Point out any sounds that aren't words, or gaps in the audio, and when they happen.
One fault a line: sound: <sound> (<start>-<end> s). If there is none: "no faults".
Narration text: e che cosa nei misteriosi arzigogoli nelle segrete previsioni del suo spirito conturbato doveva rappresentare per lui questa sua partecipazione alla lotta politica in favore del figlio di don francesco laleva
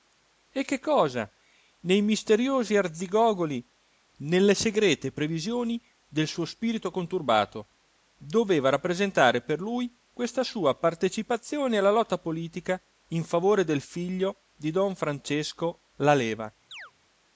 sound: chirp (16.7-16.9 s)